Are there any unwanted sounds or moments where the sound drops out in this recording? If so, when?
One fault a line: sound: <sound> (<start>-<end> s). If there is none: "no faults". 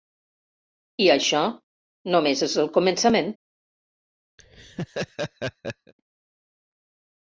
sound: laugh (4.4-5.9 s)